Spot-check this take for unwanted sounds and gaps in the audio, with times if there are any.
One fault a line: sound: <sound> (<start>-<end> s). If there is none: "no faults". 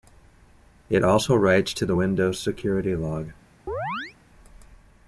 sound: chirp (3.7-4.2 s)